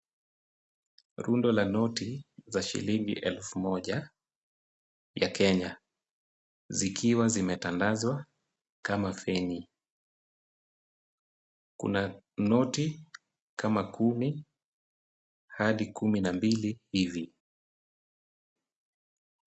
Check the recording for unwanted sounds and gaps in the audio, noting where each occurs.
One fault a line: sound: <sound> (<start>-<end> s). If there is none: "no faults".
no faults